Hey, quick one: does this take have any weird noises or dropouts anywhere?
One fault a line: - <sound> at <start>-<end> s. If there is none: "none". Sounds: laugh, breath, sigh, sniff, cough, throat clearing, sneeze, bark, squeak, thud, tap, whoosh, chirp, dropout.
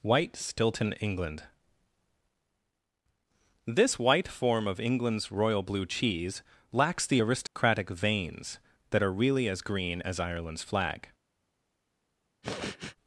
- dropout at 7.5-7.6 s
- sniff at 12.4-13.0 s